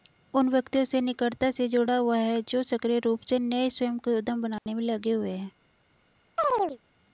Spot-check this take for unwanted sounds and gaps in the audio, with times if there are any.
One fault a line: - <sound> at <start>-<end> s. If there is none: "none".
- dropout at 4.6-4.7 s
- chirp at 6.4-6.8 s